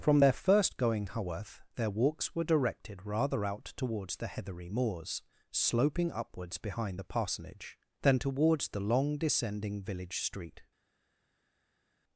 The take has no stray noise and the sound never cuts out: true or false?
true